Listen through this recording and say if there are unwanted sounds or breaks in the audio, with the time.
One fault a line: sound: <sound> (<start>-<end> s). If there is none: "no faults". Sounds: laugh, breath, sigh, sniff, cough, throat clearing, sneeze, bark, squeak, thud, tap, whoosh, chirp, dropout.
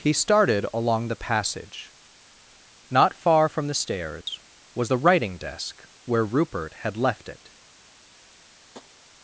sound: dropout (4.2-4.3 s)
sound: tap (8.7-8.9 s)